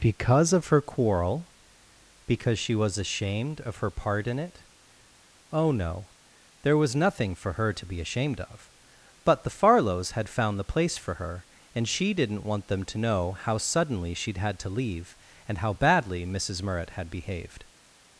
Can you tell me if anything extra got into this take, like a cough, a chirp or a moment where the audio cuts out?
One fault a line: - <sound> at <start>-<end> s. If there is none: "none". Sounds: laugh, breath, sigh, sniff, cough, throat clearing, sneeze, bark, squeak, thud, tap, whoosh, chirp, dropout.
none